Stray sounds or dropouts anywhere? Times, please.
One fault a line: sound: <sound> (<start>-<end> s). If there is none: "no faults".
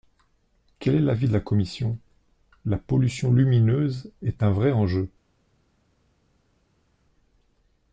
no faults